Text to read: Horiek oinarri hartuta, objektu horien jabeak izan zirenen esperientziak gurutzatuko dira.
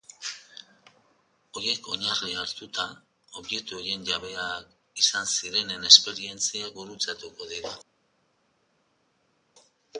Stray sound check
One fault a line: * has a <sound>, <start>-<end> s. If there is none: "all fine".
all fine